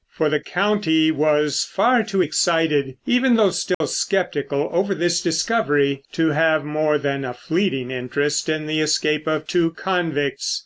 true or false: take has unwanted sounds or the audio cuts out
true